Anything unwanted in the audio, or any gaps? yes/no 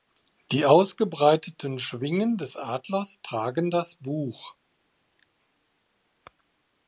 no